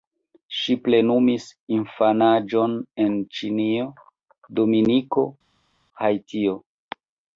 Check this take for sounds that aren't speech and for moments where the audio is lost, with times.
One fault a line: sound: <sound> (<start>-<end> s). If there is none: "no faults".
no faults